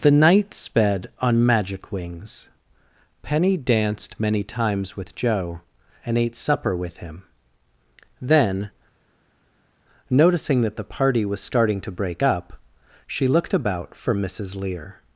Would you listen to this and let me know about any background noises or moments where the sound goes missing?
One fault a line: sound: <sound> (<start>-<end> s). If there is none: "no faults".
no faults